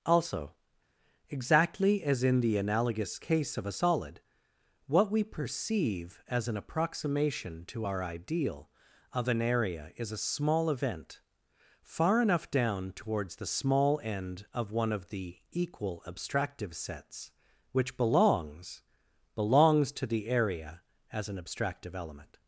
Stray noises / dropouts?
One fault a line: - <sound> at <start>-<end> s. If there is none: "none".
none